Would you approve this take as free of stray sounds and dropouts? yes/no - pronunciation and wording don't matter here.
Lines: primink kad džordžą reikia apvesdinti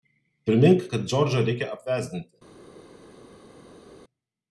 yes